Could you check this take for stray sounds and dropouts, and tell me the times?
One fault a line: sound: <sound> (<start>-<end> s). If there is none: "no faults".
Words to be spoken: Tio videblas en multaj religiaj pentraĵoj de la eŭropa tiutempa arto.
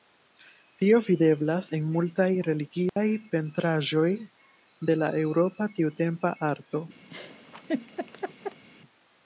sound: dropout (2.9-3.0 s)
sound: laugh (7.1-8.6 s)